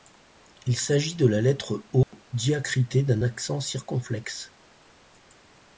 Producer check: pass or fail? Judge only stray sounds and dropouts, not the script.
fail